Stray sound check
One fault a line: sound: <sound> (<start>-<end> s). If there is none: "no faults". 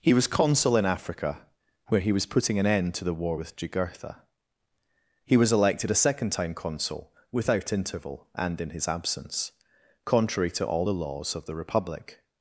no faults